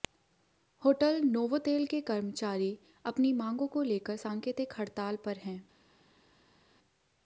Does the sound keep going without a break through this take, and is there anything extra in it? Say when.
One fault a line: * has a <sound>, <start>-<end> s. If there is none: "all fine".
all fine